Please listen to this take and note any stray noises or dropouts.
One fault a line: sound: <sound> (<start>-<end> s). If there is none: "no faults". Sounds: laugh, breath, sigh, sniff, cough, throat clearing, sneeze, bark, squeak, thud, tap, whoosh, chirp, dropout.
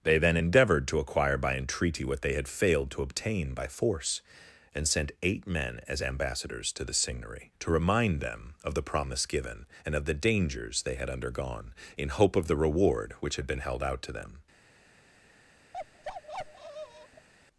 sound: bark (15.7-17.3 s)